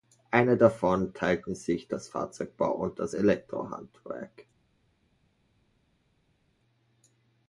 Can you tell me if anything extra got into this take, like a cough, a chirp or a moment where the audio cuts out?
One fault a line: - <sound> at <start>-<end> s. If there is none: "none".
none